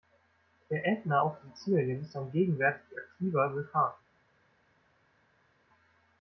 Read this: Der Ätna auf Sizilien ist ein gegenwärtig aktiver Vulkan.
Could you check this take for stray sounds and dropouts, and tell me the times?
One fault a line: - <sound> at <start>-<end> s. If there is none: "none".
none